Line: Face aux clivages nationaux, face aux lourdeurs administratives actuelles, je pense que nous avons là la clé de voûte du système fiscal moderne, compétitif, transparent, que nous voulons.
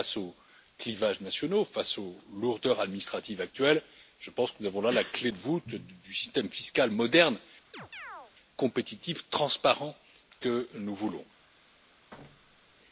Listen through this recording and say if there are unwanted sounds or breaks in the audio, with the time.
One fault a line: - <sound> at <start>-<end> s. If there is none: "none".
- chirp at 7.7-8.3 s
- thud at 12.1-12.8 s